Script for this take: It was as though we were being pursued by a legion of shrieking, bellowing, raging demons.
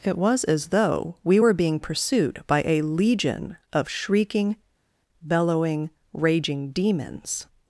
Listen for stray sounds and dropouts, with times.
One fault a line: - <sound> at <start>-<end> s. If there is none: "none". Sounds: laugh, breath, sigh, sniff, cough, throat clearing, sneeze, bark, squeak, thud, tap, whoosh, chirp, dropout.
none